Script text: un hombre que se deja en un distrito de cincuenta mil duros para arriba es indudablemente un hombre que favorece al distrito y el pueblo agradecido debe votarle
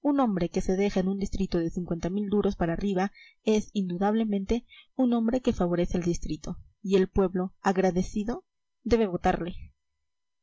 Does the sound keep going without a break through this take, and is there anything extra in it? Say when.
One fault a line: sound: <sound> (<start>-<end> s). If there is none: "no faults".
no faults